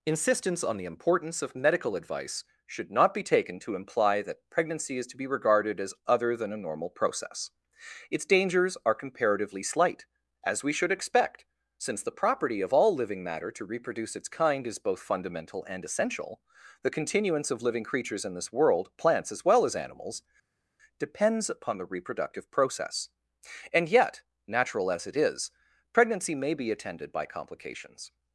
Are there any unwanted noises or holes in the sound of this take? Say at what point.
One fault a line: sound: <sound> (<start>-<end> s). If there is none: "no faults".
no faults